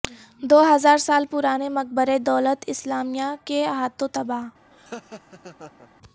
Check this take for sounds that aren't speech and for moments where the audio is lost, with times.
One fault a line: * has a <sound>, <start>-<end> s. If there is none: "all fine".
* has a laugh, 4.7-5.9 s